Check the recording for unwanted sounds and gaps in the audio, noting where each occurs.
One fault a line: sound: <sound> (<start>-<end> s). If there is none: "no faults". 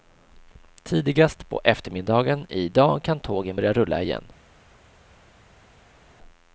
no faults